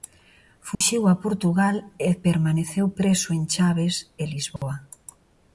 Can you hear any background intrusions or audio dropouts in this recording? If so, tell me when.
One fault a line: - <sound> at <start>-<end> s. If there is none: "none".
- dropout at 0.7-0.8 s
- dropout at 4.6-4.6 s